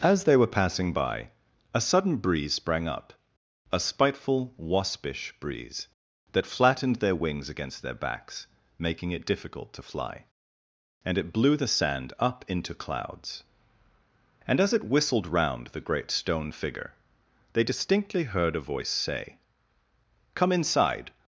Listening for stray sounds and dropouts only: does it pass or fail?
pass